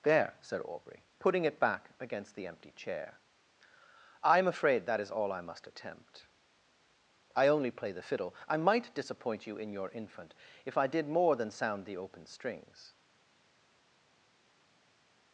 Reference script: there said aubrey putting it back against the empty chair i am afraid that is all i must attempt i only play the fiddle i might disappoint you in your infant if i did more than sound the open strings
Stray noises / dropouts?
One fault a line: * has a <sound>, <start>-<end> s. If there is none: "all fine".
all fine